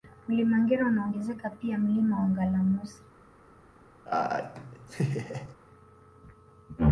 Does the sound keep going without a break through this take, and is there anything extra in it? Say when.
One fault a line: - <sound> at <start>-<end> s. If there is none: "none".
- laugh at 4.1-5.6 s